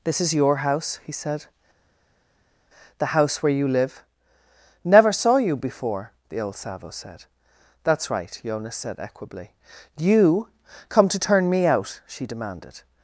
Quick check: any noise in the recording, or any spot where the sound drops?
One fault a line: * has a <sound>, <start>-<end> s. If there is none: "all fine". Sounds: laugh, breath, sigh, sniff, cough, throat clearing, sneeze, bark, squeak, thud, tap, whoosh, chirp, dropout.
all fine